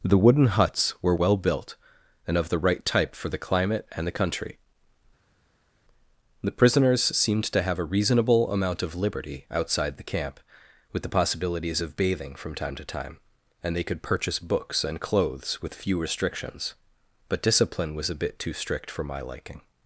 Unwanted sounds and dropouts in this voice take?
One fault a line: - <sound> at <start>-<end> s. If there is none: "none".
none